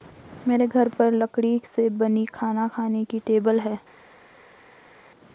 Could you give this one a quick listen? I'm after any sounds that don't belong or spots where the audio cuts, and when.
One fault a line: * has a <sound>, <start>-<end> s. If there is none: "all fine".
all fine